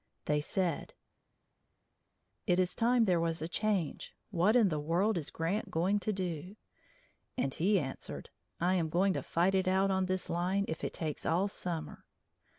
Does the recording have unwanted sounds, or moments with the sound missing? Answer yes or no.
no